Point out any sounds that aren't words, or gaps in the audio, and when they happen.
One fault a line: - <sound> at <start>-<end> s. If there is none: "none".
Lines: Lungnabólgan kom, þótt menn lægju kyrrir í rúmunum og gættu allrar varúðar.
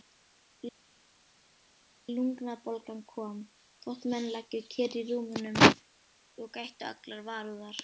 none